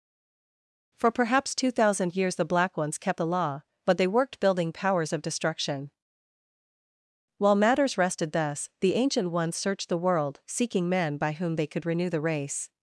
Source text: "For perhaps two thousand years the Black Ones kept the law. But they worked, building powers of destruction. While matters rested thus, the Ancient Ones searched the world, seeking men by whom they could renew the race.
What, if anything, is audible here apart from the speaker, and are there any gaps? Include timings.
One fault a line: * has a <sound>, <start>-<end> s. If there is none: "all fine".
all fine